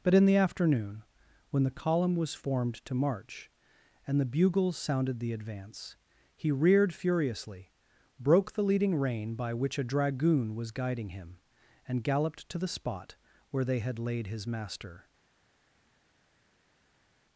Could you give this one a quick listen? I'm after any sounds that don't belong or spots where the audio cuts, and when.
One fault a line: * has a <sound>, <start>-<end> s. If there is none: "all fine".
all fine